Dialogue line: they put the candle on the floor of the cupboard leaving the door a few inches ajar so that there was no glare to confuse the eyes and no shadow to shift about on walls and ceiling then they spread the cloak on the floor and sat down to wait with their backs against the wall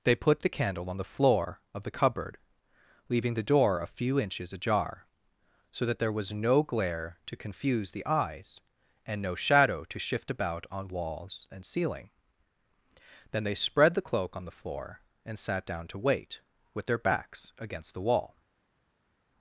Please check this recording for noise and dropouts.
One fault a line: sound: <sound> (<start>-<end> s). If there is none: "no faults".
no faults